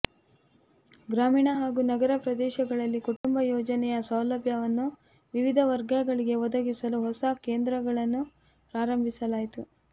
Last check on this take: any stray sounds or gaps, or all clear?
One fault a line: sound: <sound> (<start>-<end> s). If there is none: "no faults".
sound: dropout (3.2-3.2 s)